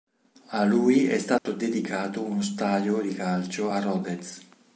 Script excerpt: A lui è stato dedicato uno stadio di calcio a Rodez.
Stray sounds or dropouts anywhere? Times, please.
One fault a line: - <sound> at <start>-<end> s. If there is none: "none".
- dropout at 1.4-1.5 s